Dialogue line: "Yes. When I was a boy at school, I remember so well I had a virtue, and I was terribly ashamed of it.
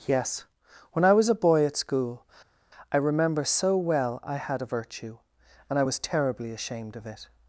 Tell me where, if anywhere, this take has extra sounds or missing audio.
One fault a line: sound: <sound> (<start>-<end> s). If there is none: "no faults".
no faults